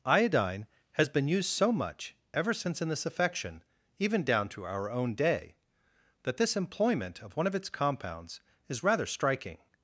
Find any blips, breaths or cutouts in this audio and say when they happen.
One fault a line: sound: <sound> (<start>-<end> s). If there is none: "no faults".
no faults